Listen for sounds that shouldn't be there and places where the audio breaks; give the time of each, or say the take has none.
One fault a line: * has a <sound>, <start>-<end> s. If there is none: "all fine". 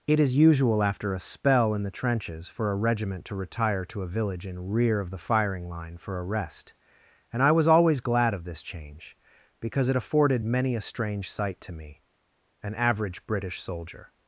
all fine